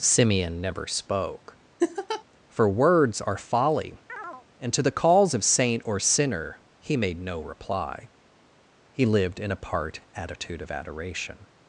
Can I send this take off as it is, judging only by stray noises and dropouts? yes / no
no